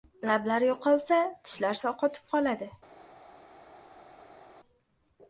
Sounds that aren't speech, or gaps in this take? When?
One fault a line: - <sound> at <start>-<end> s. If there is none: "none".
none